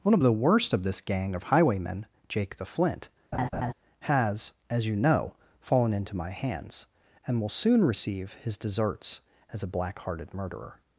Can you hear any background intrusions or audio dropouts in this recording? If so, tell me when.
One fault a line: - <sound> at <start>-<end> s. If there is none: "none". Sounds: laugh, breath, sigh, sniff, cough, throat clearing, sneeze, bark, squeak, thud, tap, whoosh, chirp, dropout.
- laugh at 3.3-3.7 s